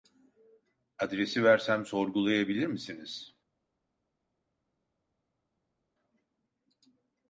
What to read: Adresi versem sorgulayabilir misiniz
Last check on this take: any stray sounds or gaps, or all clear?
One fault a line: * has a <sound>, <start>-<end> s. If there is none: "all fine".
all fine